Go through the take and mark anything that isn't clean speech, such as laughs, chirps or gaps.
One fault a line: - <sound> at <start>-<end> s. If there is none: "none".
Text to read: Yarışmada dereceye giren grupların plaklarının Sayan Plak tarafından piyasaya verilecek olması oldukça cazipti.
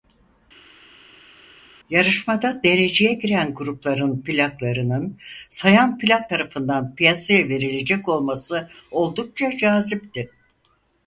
none